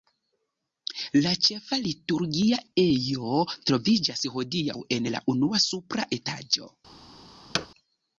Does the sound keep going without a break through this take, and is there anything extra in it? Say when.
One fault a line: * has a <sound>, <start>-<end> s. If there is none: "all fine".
* has a thud, 7.5-7.7 s